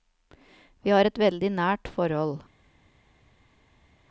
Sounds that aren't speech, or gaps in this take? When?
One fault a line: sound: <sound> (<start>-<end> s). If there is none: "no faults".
no faults